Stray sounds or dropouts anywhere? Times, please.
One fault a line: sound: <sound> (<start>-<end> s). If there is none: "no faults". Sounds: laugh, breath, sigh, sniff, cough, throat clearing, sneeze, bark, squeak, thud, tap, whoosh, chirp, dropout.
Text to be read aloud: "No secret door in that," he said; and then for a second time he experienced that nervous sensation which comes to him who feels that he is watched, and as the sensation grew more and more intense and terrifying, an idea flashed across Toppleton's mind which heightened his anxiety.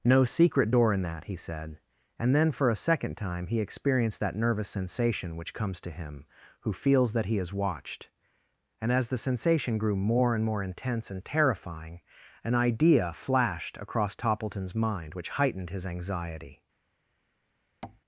sound: tap (17.8-18.0 s)